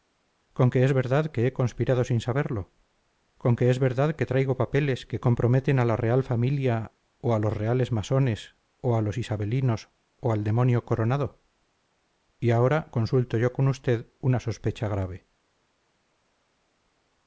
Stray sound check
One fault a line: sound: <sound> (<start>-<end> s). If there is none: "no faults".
no faults